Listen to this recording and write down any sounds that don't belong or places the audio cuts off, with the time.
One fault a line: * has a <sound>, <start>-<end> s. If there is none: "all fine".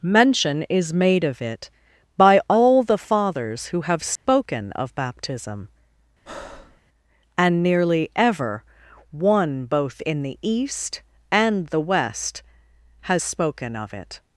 * has a dropout, 4.2-4.3 s
* has a breath, 6.3-6.8 s